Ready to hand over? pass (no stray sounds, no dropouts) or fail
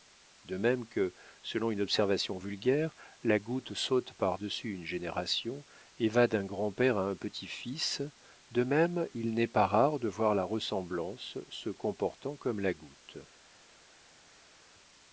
pass